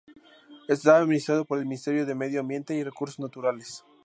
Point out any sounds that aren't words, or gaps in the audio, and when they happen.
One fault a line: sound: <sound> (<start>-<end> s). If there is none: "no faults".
no faults